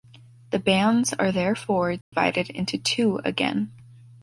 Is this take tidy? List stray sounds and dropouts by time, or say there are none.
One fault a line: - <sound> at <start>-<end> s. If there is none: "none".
- dropout at 2.0-2.1 s